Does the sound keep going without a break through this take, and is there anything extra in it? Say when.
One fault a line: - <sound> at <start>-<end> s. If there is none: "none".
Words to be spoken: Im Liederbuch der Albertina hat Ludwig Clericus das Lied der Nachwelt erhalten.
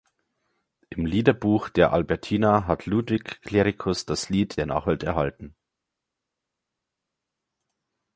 none